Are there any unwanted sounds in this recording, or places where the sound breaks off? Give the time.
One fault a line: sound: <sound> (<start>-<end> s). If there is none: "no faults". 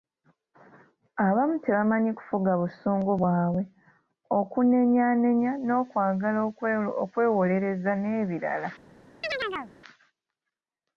sound: chirp (9.2-9.7 s)